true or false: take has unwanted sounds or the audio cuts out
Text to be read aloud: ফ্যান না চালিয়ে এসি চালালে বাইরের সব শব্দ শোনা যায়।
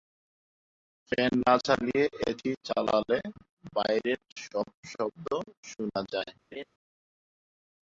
true